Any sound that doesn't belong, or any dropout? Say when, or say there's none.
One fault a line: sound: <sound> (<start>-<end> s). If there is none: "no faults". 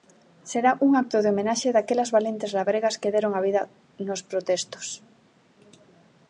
no faults